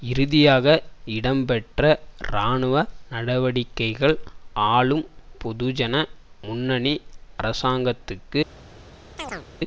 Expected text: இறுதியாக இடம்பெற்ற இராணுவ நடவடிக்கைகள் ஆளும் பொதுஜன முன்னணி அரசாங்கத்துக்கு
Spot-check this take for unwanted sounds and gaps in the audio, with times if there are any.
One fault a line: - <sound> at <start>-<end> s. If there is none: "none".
- chirp at 9.2-9.5 s